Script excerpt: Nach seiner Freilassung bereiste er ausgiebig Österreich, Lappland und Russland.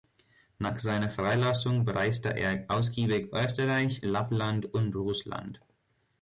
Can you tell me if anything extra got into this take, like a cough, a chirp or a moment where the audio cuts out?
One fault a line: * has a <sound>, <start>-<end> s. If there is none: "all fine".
all fine